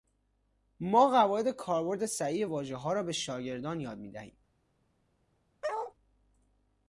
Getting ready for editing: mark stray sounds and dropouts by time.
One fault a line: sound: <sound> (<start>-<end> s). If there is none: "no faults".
sound: bark (5.6-5.9 s)